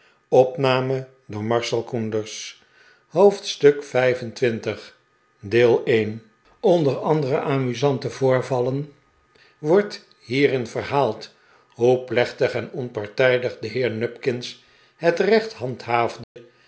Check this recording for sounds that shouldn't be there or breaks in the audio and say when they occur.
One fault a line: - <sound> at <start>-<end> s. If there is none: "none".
- dropout at 16.2-16.4 s